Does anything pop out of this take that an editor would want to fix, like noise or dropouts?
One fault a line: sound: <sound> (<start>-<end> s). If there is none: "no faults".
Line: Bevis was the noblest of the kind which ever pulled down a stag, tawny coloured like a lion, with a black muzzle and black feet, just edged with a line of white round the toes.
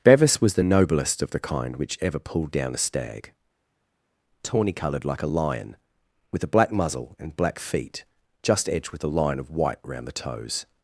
no faults